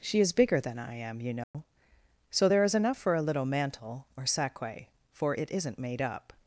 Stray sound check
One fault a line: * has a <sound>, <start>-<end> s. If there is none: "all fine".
* has a dropout, 1.4-1.5 s